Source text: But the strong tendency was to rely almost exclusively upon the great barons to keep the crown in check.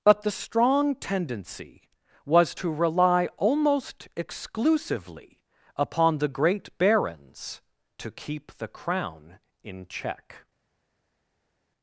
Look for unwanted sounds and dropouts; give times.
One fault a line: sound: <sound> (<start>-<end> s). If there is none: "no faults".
no faults